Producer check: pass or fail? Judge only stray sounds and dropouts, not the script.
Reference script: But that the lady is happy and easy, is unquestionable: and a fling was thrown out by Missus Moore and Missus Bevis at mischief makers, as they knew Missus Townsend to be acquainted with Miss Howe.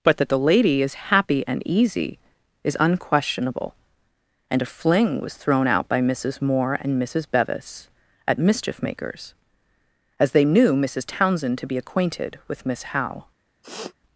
fail